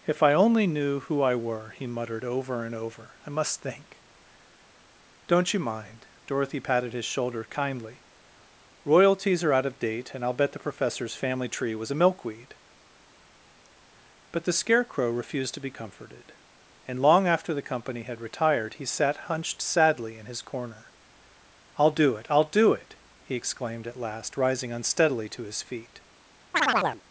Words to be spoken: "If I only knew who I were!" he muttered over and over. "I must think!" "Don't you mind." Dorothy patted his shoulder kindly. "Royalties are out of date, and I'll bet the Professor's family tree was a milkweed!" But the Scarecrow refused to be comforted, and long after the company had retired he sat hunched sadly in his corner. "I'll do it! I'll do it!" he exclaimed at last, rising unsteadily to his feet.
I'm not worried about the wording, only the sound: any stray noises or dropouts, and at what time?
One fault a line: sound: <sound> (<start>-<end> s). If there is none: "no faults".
sound: chirp (26.5-27.0 s)